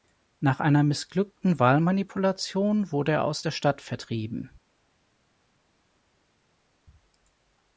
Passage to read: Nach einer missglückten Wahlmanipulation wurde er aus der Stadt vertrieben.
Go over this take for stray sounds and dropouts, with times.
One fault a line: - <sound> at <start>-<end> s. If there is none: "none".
none